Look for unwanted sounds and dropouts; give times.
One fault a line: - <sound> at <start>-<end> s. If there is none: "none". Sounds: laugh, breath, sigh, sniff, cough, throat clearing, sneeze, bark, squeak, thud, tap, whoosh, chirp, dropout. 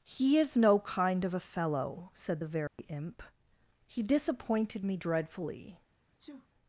- dropout at 2.7-2.8 s
- sneeze at 6.2-6.5 s